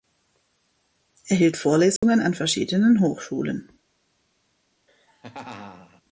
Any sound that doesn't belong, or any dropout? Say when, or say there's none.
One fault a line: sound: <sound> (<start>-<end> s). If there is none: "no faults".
sound: dropout (2.0-2.0 s)
sound: laugh (4.9-6.0 s)